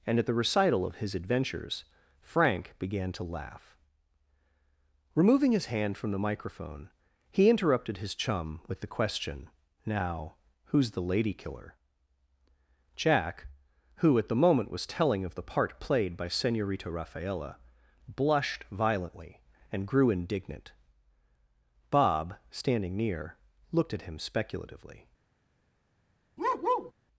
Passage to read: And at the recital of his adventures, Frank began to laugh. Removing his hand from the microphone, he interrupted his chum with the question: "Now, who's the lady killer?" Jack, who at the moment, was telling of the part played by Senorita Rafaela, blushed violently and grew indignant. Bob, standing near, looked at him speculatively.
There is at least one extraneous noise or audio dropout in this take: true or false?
true